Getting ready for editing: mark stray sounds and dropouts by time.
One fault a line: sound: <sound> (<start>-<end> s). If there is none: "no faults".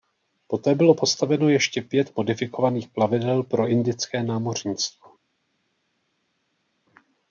no faults